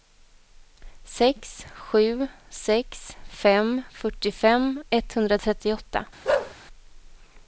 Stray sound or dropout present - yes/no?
yes